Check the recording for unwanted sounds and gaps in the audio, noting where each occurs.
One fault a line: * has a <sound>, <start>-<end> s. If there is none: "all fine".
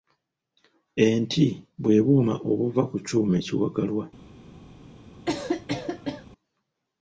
* has a cough, 5.3-6.3 s